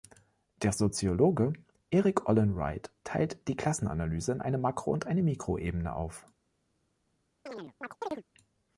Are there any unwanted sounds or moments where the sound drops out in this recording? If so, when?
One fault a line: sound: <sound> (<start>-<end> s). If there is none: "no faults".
sound: chirp (7.5-8.2 s)